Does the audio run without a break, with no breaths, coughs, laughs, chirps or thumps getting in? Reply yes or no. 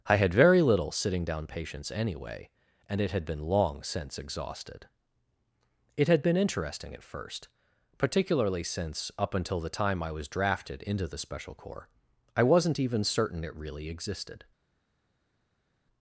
yes